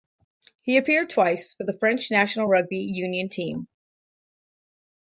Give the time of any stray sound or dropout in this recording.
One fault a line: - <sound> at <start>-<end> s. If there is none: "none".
none